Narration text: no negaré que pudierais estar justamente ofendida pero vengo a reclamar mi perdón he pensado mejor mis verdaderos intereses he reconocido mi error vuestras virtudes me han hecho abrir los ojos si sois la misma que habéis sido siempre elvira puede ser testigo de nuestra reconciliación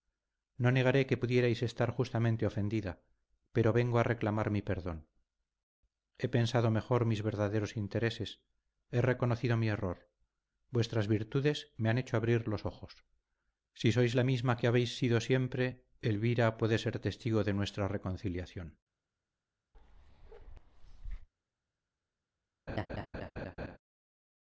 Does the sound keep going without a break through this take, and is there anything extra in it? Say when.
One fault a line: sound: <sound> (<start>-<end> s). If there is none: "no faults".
sound: bark (19.7-21.3 s)
sound: laugh (22.7-23.8 s)